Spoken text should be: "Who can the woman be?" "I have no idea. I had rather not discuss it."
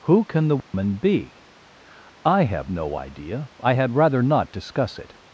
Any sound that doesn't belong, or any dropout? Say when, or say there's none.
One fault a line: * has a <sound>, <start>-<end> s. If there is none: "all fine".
* has a dropout, 0.6-0.7 s